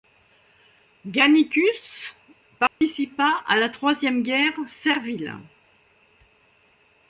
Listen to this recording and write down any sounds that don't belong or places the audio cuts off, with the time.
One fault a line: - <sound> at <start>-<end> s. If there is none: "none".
- dropout at 2.7-2.8 s